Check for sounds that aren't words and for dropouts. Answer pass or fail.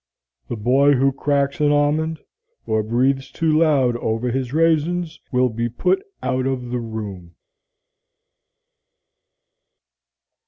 pass